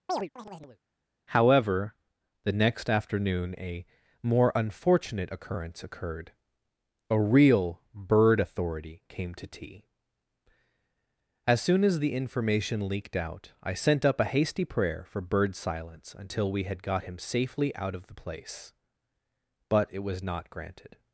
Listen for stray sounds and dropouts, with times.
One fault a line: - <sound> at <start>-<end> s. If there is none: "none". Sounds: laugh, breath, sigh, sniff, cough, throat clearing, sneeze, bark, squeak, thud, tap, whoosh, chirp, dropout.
- chirp at 0.1-0.8 s